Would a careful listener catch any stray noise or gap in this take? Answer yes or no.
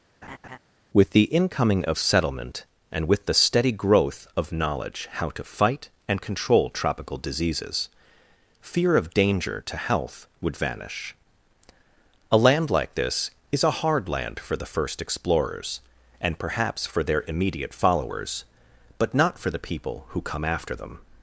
yes